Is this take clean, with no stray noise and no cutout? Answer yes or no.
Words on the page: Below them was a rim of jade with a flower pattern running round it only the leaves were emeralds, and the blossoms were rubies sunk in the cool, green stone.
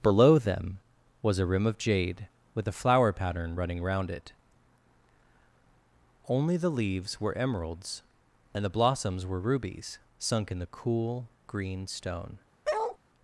no